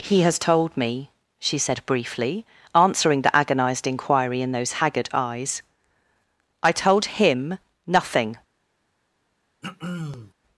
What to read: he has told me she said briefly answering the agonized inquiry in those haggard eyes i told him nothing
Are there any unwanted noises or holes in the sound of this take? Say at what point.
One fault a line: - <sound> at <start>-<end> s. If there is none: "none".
- throat clearing at 9.6-10.3 s